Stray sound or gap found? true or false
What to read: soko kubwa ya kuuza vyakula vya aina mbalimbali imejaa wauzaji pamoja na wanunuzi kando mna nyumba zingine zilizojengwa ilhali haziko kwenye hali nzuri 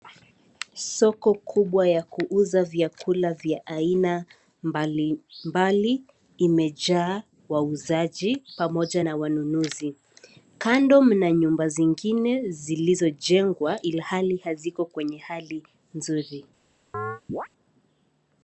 true